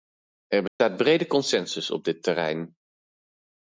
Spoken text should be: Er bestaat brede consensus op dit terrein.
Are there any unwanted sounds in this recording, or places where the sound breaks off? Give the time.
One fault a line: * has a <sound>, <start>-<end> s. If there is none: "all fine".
* has a dropout, 0.7-0.8 s